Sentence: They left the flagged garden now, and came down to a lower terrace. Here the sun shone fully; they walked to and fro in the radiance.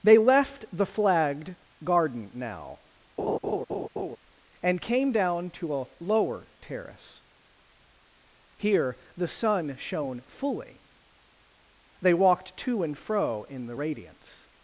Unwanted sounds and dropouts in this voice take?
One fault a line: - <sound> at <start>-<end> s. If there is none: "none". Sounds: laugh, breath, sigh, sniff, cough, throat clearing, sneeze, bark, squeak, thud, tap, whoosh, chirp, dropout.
- laugh at 3.2-4.2 s